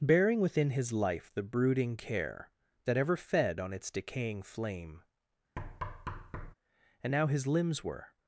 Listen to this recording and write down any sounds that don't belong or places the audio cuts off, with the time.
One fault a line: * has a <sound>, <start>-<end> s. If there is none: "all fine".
* has a thud, 5.6-6.5 s